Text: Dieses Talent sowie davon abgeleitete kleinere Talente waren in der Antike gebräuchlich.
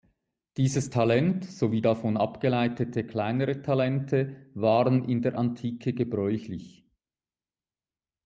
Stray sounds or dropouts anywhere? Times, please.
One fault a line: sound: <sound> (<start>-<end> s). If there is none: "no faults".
no faults